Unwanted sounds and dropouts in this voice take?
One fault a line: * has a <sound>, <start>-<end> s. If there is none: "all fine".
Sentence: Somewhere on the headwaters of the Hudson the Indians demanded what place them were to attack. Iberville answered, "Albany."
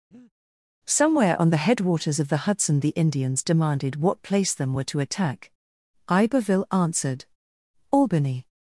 * has a breath, 0.1-0.3 s